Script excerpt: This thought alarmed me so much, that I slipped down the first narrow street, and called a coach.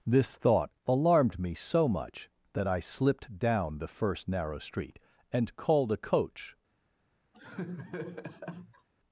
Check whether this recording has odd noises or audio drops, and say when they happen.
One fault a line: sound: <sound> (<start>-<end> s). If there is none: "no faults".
sound: laugh (7.3-8.9 s)